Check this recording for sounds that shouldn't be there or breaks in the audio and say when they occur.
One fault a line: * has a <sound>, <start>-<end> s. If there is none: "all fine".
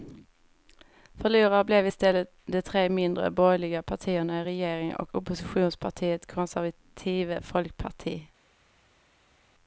all fine